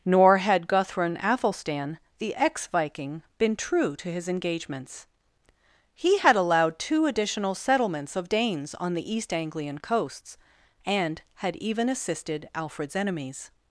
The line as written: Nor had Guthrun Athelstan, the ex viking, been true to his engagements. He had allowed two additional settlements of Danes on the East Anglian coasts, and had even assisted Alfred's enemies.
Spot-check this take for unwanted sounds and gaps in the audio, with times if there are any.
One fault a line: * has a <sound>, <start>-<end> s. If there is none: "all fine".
all fine